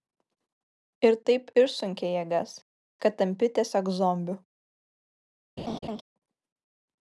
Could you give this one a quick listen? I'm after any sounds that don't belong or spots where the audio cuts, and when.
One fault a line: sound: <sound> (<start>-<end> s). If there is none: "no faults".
sound: laugh (5.6-6.0 s)